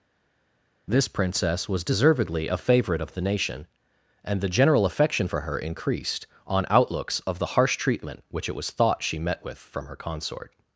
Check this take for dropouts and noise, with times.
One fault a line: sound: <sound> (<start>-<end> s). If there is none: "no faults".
no faults